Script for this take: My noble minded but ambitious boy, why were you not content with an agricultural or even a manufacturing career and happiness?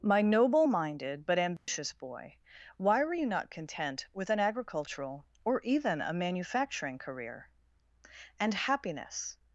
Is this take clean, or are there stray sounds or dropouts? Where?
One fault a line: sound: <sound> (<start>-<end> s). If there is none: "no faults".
sound: dropout (1.6-1.7 s)